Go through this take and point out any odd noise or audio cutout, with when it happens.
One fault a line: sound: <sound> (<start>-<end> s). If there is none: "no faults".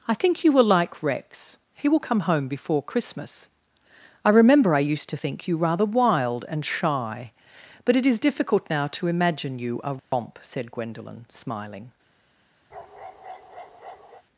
sound: dropout (10.0-10.1 s)
sound: bark (12.7-14.2 s)